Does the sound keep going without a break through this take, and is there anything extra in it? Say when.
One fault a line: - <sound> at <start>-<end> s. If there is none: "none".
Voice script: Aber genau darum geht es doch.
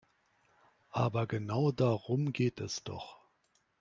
none